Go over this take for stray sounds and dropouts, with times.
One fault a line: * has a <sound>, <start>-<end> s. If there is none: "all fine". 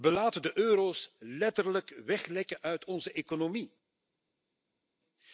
all fine